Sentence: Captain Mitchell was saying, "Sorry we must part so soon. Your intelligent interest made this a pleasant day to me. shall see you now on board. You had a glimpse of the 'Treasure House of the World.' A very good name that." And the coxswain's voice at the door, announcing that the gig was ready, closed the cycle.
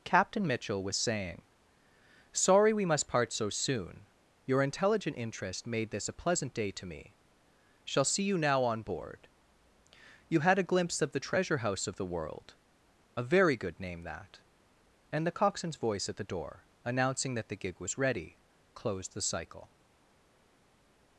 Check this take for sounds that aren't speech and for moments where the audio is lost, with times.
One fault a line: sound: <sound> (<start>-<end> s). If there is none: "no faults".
no faults